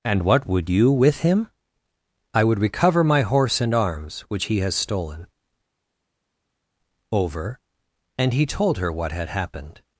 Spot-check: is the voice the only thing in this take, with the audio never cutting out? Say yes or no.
yes